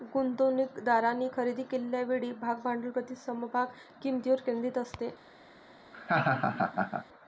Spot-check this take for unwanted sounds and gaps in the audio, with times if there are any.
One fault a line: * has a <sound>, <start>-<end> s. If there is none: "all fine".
* has a laugh, 5.9-7.1 s